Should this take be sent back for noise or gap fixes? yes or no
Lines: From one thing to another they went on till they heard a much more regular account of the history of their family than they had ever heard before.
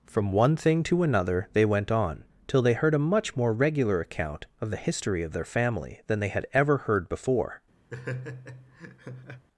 yes